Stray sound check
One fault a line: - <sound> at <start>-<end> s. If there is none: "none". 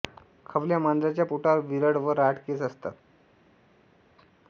none